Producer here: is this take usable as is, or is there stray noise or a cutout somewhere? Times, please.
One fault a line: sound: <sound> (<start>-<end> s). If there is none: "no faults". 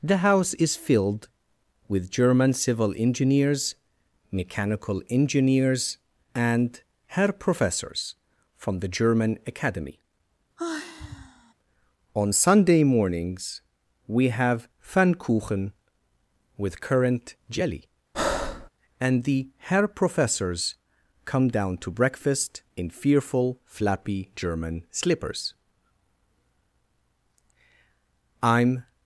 sound: sigh (10.6-11.5 s)
sound: breath (18.1-18.7 s)